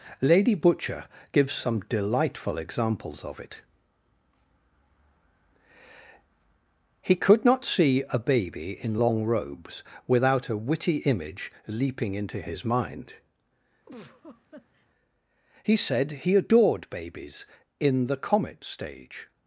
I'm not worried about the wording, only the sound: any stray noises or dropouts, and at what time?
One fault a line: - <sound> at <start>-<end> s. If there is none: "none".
- laugh at 13.9-14.9 s